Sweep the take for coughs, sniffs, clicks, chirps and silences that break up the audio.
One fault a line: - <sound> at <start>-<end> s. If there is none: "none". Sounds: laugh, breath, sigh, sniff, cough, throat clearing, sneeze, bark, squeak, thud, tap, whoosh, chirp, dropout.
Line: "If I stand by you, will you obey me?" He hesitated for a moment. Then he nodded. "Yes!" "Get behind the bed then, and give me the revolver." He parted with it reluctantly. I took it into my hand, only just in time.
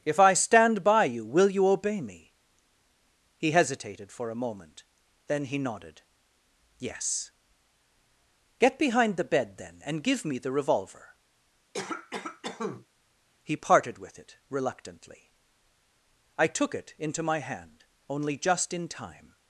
- cough at 11.7-12.9 s